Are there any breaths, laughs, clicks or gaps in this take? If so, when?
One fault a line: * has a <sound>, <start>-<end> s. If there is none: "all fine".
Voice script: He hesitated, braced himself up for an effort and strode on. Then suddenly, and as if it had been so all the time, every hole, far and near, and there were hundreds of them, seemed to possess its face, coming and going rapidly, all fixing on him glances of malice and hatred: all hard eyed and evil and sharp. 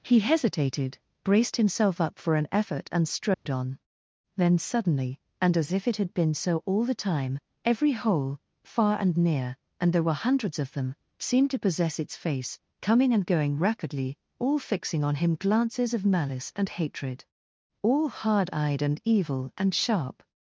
* has a dropout, 3.3-3.5 s